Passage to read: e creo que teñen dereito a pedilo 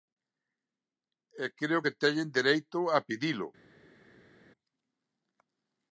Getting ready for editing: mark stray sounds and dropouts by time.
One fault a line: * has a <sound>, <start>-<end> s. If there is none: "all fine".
all fine